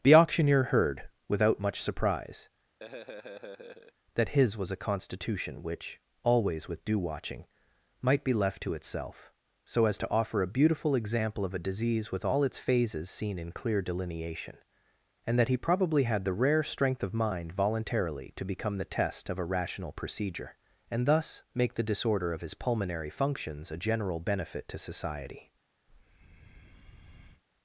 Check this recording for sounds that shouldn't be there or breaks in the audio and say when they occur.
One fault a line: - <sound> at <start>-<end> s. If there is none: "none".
- laugh at 2.8-3.9 s
- breath at 25.9-27.4 s